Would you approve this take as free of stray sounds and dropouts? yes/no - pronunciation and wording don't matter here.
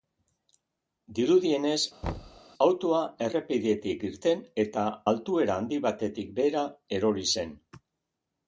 no